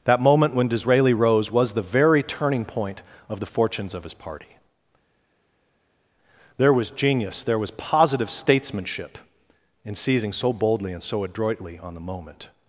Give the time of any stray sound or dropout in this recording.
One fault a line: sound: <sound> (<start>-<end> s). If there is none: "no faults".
no faults